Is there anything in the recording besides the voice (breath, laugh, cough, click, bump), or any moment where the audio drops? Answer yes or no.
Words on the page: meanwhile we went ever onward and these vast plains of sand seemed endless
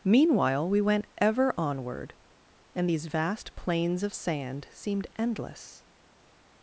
no